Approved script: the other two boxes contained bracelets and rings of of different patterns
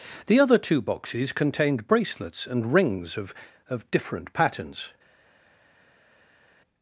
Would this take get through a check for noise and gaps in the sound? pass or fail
pass